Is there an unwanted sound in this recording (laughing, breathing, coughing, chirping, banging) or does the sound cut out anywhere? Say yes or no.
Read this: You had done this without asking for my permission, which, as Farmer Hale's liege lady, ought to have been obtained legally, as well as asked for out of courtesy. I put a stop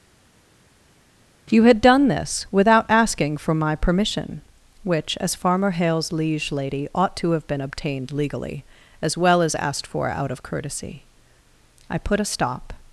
no